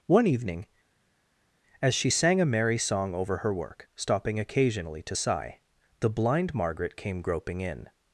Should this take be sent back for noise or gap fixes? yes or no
no